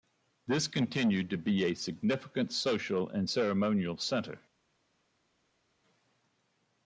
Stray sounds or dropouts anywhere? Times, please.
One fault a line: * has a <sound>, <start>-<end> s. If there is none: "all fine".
all fine